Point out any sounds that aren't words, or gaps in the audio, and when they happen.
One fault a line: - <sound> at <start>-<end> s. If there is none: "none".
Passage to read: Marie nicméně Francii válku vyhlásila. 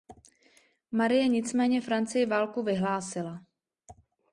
none